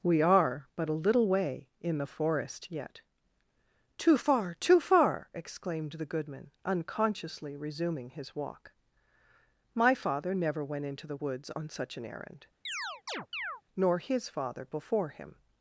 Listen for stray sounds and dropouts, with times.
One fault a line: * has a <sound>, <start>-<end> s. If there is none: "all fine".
* has a chirp, 12.7-13.6 s